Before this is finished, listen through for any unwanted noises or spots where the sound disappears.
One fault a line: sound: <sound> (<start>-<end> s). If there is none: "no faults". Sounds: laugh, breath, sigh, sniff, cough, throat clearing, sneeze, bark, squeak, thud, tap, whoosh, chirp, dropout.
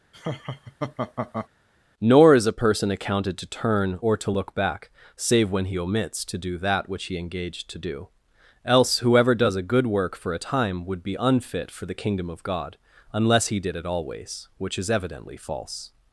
sound: laugh (0.1-1.5 s)